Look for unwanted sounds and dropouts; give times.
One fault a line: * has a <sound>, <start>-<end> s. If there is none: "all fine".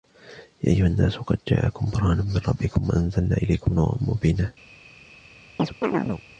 * has a chirp, 5.6-6.2 s